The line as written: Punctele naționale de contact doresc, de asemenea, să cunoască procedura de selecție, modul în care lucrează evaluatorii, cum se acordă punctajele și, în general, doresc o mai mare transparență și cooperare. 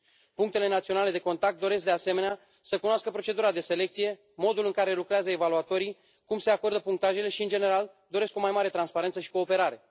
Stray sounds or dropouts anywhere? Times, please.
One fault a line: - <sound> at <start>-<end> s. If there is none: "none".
none